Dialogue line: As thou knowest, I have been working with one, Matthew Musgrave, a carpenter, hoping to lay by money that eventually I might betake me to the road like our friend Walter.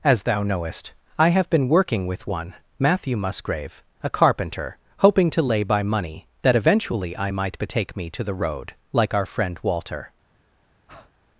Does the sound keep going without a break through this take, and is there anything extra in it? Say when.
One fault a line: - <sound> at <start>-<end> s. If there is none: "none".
- breath at 10.9-11.1 s